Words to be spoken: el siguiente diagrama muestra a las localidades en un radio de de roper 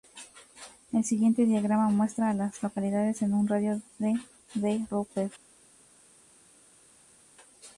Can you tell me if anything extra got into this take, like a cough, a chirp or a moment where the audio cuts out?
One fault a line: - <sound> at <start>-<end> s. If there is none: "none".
none